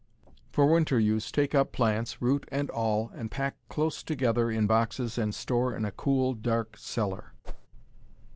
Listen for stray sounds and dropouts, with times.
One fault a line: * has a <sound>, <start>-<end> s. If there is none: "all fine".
* has a whoosh, 7.4-7.7 s